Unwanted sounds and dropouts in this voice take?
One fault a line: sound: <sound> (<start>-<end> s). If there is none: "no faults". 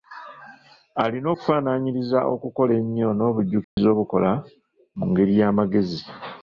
sound: dropout (3.6-3.8 s)